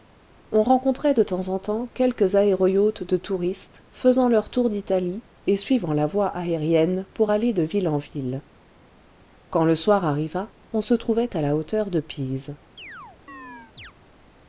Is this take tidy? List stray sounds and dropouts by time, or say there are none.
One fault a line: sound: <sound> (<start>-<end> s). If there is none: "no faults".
sound: chirp (12.8-13.9 s)